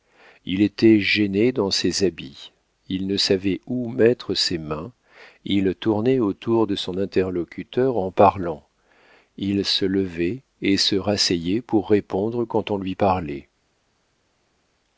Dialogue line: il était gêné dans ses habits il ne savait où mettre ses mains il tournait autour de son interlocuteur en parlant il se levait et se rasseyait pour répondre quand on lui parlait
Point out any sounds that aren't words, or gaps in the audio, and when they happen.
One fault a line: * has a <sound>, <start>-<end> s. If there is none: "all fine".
all fine